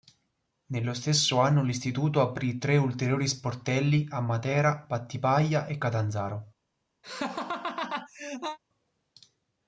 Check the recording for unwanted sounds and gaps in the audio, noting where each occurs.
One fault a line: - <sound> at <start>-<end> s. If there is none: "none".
- laugh at 7.0-8.6 s